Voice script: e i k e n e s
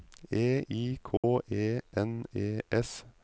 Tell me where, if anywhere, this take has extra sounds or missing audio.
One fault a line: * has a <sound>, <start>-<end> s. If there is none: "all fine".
* has a dropout, 1.2-1.2 s